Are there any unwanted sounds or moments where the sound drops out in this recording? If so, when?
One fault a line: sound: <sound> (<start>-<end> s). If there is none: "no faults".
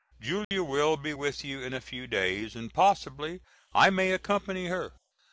sound: dropout (0.4-0.5 s)